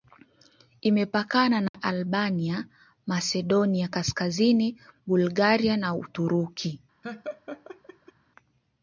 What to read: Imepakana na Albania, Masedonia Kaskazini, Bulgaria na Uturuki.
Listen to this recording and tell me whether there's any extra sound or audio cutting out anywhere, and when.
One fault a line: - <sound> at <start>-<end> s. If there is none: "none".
- dropout at 1.7-1.7 s
- laugh at 7.0-8.1 s